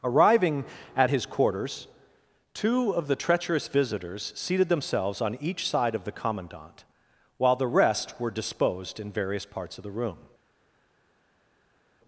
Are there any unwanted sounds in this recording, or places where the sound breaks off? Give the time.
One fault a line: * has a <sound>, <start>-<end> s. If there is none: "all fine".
all fine